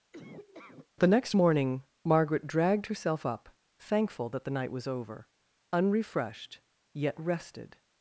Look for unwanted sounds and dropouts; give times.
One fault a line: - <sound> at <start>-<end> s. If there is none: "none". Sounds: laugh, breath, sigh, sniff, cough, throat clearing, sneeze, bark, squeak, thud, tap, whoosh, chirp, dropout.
- laugh at 0.1-0.9 s